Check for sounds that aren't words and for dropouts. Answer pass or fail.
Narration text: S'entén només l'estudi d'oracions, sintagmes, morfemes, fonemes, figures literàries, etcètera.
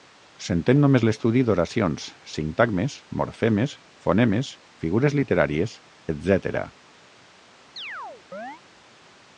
fail